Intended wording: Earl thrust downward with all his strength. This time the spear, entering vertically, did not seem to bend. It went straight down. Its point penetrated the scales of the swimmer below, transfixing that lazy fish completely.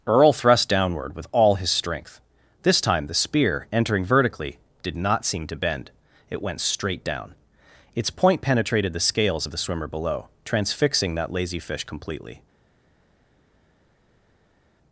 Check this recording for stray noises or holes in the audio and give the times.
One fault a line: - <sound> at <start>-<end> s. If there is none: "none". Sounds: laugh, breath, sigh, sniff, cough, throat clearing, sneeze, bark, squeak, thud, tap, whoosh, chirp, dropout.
none